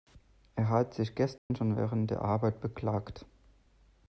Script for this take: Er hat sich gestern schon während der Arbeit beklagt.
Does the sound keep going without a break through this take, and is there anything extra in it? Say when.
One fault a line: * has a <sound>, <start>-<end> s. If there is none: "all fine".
* has a dropout, 1.4-1.5 s